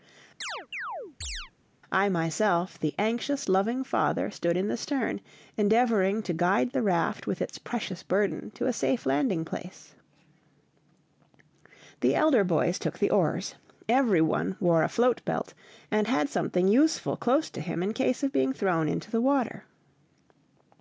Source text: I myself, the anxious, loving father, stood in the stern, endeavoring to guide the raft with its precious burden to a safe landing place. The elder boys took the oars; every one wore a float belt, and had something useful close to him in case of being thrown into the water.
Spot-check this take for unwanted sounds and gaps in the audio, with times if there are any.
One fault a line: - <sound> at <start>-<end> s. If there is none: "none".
- chirp at 0.4-1.5 s